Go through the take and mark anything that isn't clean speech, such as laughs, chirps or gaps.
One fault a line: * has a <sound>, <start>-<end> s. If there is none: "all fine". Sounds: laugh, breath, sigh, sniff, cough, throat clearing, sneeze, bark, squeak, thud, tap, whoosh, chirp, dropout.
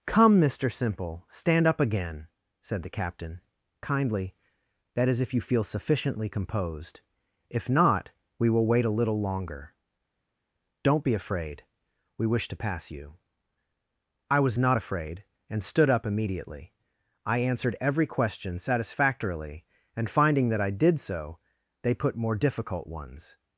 all fine